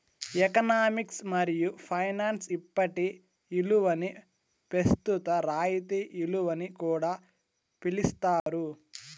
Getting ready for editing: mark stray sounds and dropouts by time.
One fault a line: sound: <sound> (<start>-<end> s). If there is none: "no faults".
sound: dropout (8.4-8.5 s)